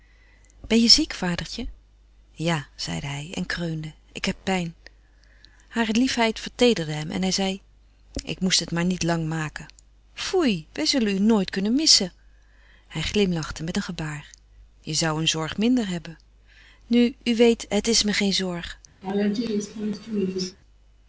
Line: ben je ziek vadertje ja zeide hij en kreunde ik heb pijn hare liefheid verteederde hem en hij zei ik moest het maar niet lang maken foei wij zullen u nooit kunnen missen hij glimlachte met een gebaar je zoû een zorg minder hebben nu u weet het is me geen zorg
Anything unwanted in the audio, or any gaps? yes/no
yes